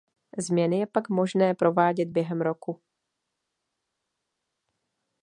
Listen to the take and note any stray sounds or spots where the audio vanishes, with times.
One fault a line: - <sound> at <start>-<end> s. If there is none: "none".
none